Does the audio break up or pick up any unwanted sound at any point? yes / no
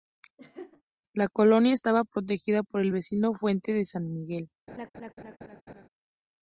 yes